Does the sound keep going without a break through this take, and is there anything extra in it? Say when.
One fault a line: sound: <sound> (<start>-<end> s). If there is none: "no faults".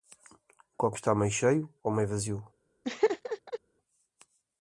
sound: laugh (2.8-3.6 s)